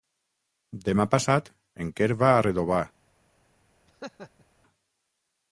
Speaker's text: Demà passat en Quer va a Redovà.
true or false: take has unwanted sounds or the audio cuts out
true